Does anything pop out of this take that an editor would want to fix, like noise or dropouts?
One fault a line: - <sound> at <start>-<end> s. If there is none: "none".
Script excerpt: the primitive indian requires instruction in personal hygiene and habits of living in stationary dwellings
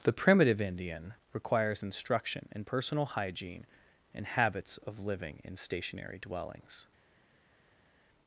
none